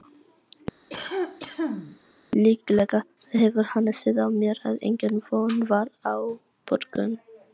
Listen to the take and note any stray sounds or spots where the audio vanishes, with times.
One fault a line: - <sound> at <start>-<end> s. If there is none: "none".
- cough at 0.9-2.0 s